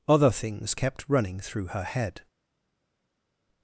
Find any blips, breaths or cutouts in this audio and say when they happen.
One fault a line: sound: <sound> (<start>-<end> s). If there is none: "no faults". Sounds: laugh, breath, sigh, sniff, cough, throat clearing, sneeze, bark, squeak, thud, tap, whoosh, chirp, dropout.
no faults